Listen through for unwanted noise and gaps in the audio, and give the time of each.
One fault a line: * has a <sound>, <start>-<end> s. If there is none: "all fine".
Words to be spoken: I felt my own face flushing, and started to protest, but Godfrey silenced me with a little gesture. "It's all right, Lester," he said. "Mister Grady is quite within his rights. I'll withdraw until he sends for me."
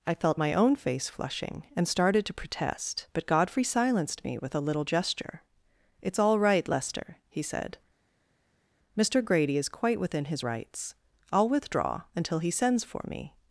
all fine